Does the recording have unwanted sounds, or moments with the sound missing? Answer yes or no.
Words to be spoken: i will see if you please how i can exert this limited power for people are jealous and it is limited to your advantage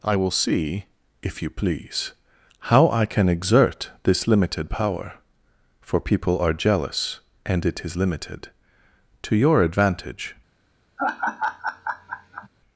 yes